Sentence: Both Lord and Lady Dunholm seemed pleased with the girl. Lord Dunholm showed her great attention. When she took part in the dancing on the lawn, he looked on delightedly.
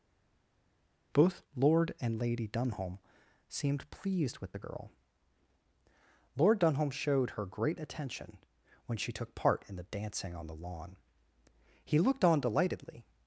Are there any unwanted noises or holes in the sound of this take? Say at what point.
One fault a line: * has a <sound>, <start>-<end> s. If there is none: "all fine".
all fine